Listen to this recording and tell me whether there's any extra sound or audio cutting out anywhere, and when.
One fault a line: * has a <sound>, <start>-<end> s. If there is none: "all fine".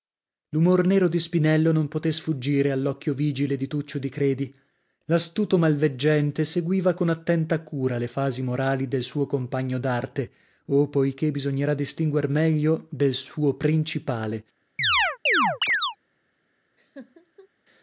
* has a chirp, 14.8-16.0 s
* has a laugh, 16.8-17.5 s